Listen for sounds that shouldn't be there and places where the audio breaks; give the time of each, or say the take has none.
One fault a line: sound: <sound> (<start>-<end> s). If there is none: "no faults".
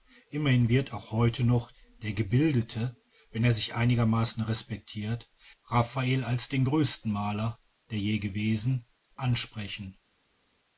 no faults